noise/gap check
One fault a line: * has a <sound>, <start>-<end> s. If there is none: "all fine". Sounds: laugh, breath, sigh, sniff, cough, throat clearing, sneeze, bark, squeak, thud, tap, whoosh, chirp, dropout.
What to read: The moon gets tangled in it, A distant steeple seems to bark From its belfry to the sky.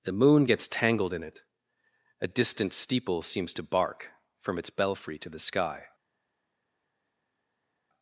all fine